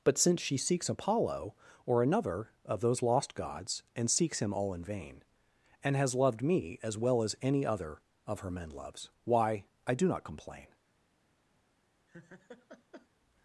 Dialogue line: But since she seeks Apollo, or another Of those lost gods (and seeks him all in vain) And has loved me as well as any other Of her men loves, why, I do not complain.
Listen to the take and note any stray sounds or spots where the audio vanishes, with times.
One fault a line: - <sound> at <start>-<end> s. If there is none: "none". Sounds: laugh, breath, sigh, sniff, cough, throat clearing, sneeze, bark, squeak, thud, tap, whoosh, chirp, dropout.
- laugh at 12.1-13.1 s